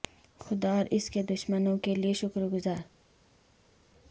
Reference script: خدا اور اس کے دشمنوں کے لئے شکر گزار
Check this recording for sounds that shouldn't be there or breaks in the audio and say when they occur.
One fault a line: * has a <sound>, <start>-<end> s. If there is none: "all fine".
all fine